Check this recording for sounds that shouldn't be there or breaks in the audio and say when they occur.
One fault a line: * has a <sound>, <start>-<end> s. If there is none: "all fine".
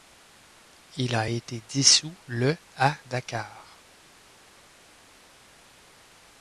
all fine